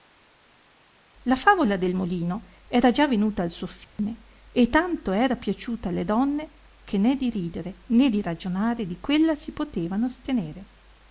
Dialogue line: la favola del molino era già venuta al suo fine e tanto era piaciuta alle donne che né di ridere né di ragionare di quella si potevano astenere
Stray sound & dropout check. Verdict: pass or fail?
fail